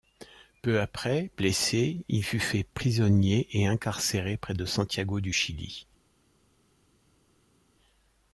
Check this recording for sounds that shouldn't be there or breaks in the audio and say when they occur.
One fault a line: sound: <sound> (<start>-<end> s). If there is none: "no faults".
no faults